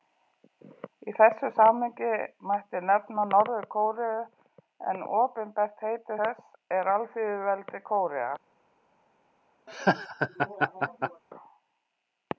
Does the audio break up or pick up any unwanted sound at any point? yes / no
yes